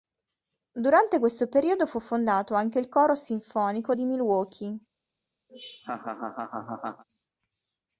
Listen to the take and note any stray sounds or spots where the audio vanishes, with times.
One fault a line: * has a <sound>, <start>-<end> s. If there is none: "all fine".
* has a laugh, 5.5-7.0 s